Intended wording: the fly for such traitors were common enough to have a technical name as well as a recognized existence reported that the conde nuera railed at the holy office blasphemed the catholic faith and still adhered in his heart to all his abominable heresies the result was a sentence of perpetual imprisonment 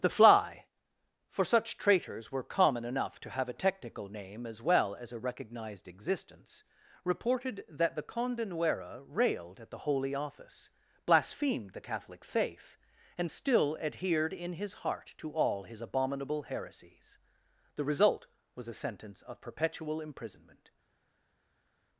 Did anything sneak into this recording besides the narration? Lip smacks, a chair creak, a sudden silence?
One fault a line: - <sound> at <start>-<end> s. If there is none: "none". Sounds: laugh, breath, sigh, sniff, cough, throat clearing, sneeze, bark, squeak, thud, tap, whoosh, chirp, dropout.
none